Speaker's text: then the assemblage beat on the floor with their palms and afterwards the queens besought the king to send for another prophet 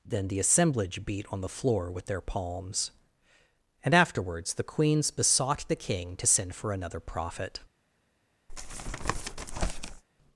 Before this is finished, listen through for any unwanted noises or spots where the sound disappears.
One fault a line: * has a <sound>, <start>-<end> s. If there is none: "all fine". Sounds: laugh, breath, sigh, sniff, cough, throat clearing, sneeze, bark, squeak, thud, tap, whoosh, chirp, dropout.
* has a tap, 8.5-10.0 s